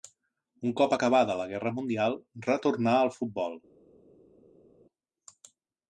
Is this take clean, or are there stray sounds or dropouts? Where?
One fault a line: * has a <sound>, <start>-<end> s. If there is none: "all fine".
all fine